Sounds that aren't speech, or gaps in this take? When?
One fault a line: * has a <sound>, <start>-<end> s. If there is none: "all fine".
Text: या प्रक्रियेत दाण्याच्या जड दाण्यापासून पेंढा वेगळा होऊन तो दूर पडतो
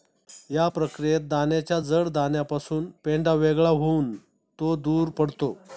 all fine